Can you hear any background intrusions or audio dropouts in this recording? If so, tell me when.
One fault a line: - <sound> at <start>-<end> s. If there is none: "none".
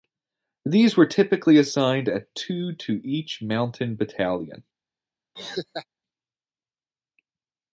- laugh at 5.4-5.9 s